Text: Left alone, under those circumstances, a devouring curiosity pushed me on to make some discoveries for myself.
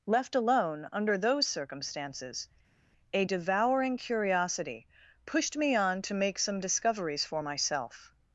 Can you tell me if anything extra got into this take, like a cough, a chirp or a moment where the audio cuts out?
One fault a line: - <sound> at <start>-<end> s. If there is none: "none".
none